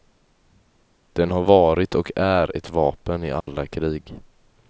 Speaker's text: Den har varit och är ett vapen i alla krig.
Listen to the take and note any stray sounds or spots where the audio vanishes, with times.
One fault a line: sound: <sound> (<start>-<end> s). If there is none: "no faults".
sound: dropout (3.4-3.5 s)